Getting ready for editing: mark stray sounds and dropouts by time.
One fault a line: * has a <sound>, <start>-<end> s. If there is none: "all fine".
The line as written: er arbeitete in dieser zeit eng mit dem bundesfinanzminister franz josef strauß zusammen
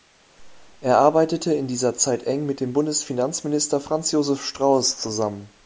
all fine